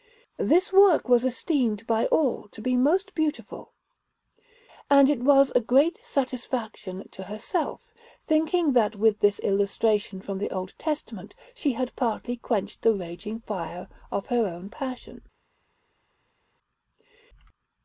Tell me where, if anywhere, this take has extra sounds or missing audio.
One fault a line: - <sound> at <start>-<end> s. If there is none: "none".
none